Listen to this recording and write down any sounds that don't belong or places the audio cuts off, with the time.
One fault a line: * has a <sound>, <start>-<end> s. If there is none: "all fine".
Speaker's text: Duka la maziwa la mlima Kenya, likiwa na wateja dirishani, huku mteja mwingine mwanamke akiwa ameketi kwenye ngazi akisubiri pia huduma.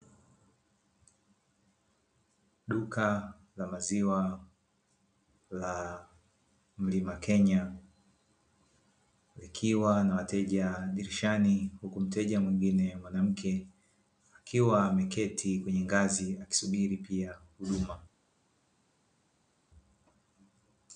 all fine